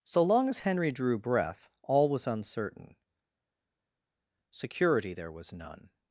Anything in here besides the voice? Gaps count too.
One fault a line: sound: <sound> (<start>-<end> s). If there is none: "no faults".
no faults